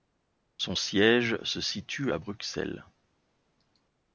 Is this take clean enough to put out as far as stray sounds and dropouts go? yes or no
yes